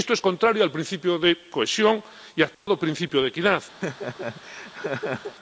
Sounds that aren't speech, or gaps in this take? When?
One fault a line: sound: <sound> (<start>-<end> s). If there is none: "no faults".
sound: dropout (2.5-2.7 s)
sound: laugh (3.8-5.4 s)